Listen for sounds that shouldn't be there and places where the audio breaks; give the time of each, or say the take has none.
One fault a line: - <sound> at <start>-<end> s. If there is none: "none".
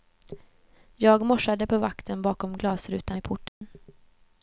- dropout at 3.5-3.6 s